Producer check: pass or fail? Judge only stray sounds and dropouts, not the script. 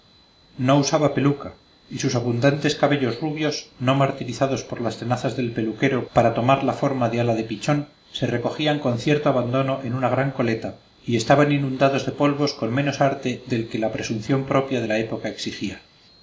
pass